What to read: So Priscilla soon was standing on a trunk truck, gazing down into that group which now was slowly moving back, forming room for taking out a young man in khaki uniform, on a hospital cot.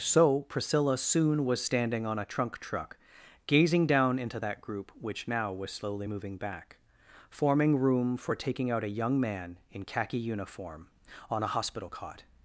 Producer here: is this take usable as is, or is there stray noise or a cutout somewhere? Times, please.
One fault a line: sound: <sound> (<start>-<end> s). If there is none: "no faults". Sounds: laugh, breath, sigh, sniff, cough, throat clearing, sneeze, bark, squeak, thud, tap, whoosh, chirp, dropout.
no faults